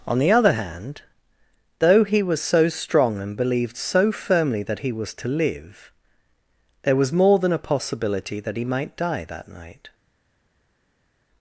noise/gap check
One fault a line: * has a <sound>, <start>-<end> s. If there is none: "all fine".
all fine